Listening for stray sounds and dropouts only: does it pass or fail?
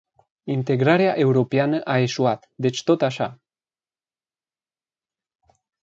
pass